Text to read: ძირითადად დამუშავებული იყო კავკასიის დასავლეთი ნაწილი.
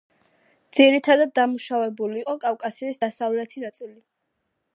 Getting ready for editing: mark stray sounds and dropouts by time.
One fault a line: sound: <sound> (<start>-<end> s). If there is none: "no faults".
no faults